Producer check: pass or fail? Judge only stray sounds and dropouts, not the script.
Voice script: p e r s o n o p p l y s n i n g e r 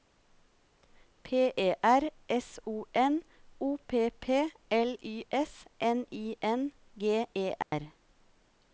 fail